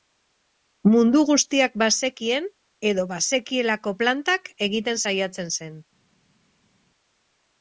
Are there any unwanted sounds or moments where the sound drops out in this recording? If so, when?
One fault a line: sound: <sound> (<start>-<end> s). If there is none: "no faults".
no faults